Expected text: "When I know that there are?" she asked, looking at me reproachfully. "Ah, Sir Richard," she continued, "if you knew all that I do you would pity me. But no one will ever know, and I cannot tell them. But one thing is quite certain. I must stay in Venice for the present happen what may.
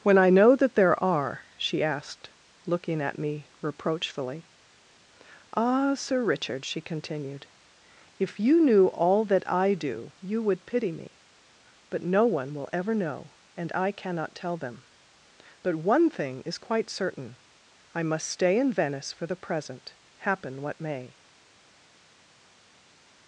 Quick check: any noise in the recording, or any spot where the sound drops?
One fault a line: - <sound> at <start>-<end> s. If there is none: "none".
none